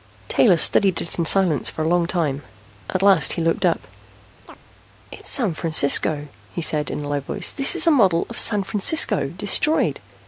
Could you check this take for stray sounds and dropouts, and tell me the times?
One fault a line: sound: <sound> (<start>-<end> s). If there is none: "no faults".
sound: chirp (4.4-4.6 s)